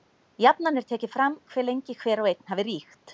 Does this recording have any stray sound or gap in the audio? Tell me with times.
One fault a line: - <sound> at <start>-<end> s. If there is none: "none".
none